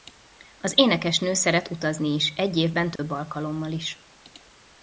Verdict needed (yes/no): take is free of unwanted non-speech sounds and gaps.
no